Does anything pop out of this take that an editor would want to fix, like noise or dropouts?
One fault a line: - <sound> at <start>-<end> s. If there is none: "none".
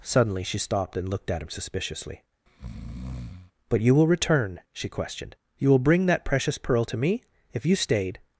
- breath at 2.5-3.5 s